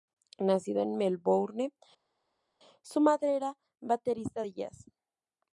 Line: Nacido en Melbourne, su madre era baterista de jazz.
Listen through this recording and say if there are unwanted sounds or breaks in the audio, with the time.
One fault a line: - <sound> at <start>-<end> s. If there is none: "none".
none